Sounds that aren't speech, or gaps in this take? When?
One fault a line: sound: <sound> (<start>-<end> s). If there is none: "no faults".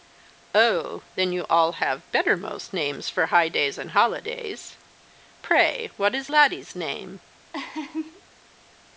sound: laugh (7.5-8.2 s)